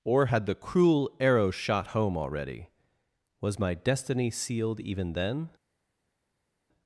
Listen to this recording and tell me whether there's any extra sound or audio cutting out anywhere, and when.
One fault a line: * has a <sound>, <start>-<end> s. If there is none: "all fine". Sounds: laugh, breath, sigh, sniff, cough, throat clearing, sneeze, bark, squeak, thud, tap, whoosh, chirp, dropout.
all fine